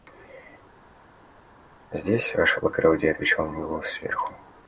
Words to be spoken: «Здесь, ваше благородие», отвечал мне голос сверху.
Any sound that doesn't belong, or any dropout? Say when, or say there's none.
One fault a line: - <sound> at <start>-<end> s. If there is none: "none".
none